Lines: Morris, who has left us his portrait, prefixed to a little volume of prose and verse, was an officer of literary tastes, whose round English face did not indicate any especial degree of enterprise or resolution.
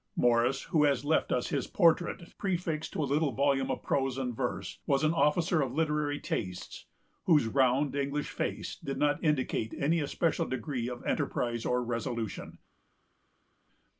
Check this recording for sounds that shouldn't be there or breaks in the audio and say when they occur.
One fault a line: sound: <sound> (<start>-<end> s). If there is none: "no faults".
no faults